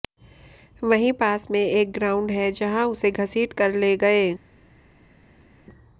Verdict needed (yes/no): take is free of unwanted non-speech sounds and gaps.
yes